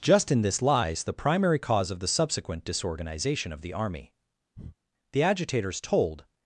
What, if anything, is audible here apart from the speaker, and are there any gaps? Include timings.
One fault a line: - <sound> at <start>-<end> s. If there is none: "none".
- breath at 4.6-4.8 s